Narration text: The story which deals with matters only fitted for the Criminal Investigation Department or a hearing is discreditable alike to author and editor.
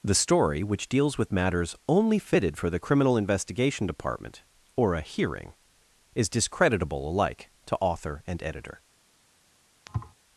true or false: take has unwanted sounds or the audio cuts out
true